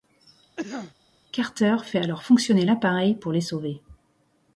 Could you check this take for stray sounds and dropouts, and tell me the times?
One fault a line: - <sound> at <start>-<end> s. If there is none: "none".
- cough at 0.6-0.9 s